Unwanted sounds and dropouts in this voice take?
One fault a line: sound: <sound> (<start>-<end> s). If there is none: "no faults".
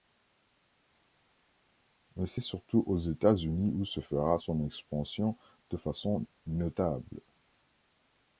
no faults